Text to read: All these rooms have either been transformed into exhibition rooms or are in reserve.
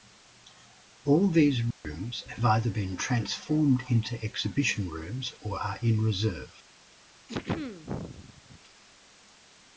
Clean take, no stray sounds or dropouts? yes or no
no